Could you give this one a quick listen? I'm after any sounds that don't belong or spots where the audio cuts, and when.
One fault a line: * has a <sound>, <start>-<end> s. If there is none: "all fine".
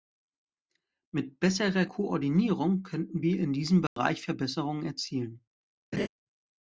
* has a dropout, 3.9-4.0 s
* has a laugh, 5.9-6.1 s